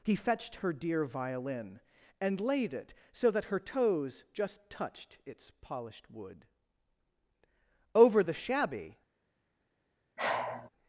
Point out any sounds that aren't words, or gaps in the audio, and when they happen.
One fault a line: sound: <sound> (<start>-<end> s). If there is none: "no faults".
sound: sigh (10.2-10.7 s)